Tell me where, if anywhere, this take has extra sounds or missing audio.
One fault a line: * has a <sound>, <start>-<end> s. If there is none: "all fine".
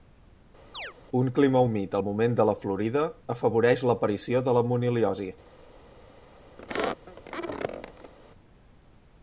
* has a chirp, 0.7-0.9 s
* has a squeak, 6.6-8.1 s